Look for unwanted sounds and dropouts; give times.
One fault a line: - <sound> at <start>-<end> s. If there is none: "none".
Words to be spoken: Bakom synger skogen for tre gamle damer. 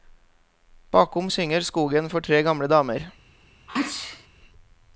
- sneeze at 3.7-4.3 s